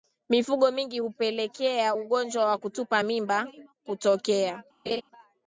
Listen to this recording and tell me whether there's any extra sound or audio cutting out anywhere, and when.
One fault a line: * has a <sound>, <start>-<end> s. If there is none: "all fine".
* has a laugh, 4.9-5.0 s